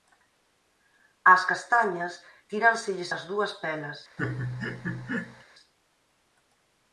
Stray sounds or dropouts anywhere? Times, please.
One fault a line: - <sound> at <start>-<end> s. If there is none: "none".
- laugh at 4.2-5.4 s